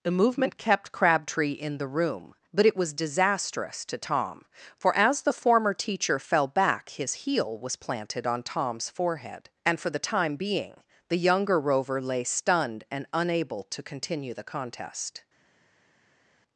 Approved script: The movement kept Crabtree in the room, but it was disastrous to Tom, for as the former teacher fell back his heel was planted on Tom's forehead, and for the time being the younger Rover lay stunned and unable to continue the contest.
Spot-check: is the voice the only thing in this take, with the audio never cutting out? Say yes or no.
yes